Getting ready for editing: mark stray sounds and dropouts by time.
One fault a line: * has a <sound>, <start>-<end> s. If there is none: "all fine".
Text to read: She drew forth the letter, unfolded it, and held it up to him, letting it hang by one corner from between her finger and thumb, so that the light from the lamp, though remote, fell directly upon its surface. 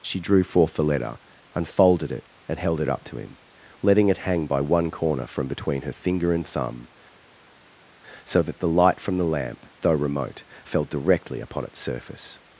all fine